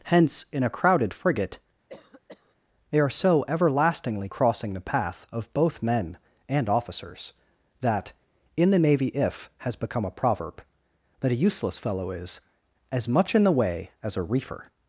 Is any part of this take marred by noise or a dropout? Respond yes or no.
yes